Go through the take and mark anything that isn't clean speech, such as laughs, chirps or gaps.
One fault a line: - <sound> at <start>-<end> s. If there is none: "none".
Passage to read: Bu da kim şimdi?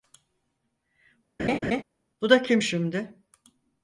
- laugh at 1.4-1.8 s